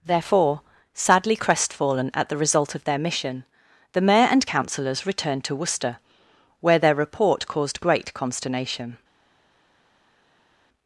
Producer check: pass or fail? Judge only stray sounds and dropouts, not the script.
pass